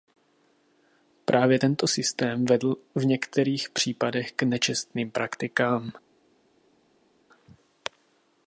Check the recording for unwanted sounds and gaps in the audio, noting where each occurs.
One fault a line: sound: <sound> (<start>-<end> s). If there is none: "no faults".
no faults